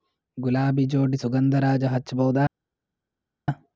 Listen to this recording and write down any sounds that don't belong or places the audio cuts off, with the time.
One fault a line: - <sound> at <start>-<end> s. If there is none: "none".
none